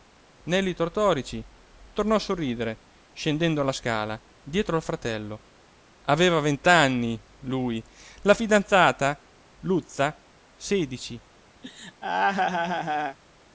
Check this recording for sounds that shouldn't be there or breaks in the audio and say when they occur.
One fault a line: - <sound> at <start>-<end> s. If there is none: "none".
- laugh at 11.6-13.2 s